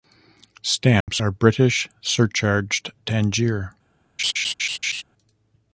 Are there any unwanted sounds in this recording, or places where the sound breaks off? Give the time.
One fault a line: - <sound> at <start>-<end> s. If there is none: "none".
- dropout at 1.0-1.1 s
- laugh at 4.2-5.0 s